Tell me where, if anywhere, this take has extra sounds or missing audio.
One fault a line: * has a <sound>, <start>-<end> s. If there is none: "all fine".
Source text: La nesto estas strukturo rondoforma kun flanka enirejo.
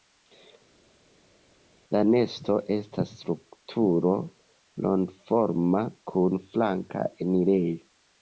all fine